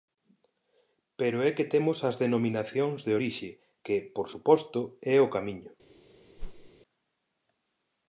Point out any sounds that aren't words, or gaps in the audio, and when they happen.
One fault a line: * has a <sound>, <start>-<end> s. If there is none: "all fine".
* has a whoosh, 6.4-6.7 s